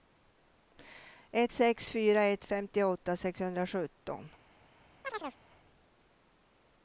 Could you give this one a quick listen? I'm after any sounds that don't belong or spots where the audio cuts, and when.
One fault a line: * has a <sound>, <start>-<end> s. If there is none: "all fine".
* has a chirp, 5.0-5.4 s